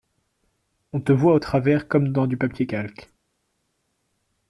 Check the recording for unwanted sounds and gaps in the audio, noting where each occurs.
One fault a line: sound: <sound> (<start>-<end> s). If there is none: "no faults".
no faults